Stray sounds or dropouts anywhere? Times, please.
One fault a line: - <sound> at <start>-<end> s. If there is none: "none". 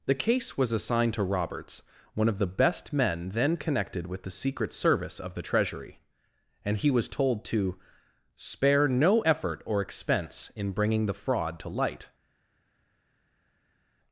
none